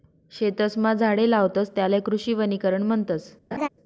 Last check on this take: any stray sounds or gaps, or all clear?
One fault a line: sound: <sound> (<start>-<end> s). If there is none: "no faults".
sound: laugh (3.5-3.7 s)